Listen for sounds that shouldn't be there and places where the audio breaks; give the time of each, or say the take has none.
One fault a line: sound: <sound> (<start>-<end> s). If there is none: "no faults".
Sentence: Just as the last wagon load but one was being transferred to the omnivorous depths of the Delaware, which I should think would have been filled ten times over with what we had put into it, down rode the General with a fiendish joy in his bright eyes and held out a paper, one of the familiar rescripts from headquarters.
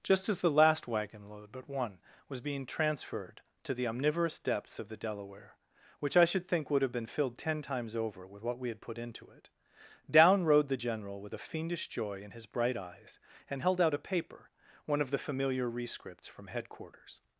no faults